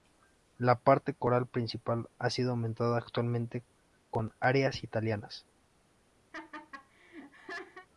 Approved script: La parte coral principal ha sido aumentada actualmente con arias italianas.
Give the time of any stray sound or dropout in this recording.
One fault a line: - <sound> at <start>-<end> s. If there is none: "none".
- laugh at 6.3-7.9 s